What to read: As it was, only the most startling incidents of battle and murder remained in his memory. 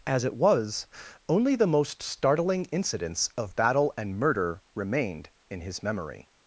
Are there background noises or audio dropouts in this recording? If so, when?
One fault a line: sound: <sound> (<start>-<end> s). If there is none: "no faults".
no faults